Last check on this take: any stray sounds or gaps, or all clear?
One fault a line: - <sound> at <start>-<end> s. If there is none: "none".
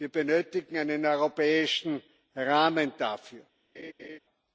- laugh at 3.7-4.2 s